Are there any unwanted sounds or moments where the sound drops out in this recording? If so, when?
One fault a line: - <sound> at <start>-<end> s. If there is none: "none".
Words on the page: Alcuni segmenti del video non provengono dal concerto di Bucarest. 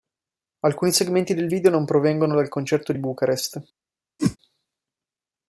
- whoosh at 4.2-4.4 s